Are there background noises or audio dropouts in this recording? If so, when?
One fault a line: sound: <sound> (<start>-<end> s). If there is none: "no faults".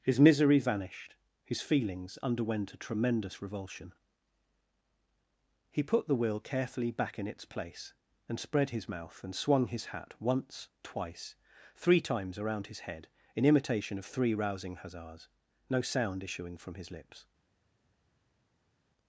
no faults